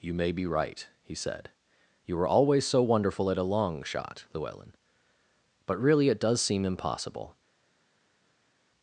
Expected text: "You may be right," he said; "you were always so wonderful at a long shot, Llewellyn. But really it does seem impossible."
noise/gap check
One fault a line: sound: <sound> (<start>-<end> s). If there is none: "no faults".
no faults